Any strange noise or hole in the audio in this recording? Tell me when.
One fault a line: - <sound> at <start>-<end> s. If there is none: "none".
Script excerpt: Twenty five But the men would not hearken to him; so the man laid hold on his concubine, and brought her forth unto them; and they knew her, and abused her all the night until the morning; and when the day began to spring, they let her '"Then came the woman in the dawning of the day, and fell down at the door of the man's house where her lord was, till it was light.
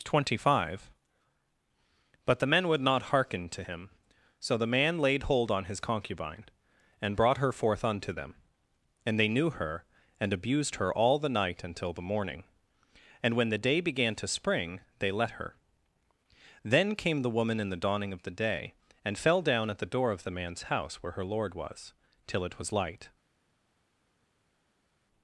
none